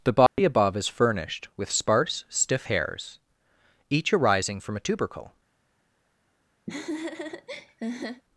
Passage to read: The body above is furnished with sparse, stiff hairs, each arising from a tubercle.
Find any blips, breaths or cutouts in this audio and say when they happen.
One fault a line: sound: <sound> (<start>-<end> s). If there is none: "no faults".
sound: dropout (0.3-0.4 s)
sound: laugh (6.7-8.2 s)